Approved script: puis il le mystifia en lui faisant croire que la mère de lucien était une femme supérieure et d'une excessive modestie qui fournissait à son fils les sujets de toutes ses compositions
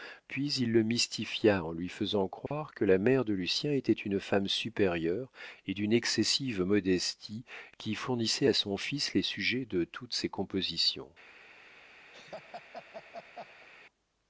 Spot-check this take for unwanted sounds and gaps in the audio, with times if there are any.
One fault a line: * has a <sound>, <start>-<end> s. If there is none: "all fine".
* has a dropout, 2.5-2.5 s
* has a laugh, 12.1-13.7 s